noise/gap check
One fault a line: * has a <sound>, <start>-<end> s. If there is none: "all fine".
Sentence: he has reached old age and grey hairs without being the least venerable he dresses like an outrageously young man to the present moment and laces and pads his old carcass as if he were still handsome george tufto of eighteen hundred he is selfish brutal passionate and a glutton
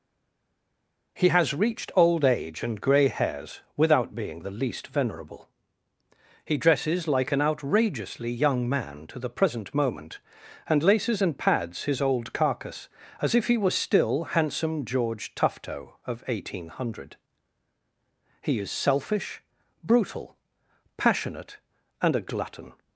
all fine